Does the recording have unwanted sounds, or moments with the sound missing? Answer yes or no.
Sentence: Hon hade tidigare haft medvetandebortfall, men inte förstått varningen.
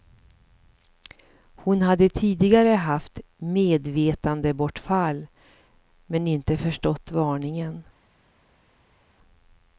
no